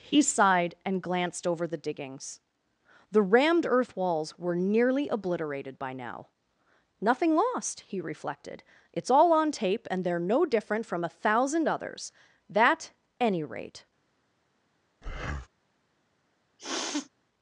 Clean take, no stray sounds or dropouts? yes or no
no